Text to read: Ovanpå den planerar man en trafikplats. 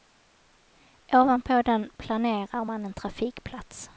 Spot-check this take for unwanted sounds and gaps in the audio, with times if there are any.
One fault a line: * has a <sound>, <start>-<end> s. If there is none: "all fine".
all fine